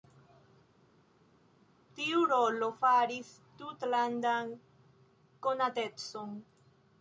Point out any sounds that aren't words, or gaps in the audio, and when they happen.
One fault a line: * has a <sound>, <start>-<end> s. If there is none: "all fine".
all fine